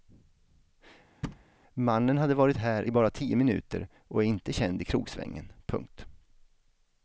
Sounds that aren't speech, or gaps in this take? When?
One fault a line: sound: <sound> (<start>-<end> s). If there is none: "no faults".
sound: thud (1.2-1.4 s)